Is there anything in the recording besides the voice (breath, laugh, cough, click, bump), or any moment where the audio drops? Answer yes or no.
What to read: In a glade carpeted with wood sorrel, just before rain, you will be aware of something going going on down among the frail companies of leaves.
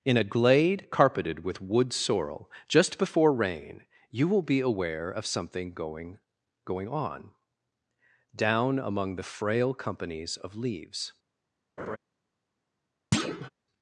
yes